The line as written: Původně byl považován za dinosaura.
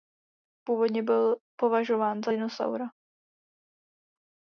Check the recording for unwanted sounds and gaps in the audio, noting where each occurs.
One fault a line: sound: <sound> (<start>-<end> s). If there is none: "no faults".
no faults